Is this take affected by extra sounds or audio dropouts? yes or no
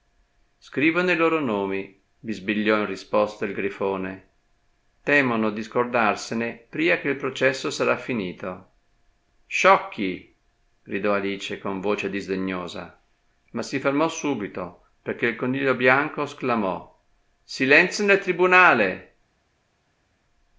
no